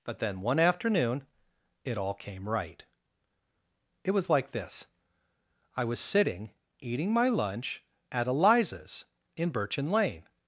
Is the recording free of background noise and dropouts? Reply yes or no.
yes